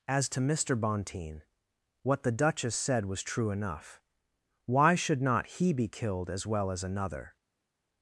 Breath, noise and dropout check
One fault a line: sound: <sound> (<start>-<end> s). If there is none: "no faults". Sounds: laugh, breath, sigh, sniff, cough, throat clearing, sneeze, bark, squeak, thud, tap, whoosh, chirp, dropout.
no faults